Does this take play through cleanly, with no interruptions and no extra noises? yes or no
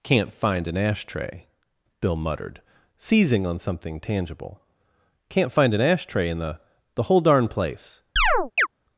no